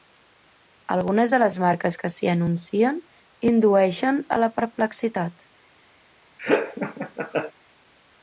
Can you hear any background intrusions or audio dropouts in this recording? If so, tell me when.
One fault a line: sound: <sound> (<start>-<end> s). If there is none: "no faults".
sound: laugh (6.4-7.5 s)